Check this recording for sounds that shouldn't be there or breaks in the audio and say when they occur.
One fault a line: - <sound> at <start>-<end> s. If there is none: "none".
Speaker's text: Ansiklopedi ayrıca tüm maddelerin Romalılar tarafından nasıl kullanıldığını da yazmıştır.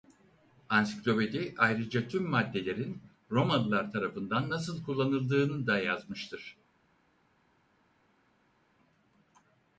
none